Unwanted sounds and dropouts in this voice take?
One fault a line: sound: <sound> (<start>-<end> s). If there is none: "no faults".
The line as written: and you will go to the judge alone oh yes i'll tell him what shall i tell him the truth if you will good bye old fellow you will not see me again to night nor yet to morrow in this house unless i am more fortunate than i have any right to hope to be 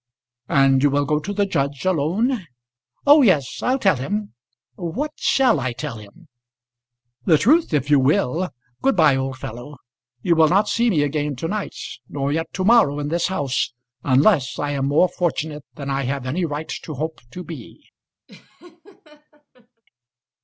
sound: laugh (18.3-19.8 s)